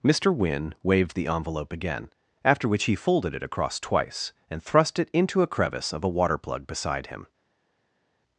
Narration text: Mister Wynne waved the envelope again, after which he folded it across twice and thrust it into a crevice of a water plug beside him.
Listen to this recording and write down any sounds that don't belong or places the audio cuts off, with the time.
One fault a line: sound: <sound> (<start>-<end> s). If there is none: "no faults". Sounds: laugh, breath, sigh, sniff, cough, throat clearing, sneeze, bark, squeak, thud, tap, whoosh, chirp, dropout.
no faults